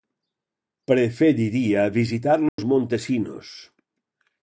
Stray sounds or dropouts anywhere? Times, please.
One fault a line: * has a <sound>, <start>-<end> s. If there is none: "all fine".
* has a dropout, 2.5-2.6 s